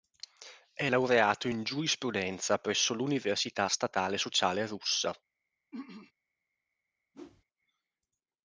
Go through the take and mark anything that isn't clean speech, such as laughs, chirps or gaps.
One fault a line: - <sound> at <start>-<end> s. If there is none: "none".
- throat clearing at 5.7-6.1 s
- whoosh at 7.1-7.4 s